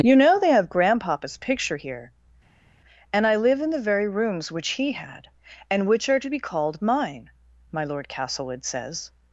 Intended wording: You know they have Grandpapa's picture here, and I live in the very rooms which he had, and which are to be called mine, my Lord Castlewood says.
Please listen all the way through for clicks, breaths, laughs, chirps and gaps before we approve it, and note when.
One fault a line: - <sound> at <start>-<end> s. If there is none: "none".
none